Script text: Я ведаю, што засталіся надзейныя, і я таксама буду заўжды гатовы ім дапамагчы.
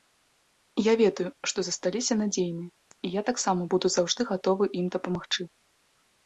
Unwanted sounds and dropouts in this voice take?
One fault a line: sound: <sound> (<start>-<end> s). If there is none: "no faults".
no faults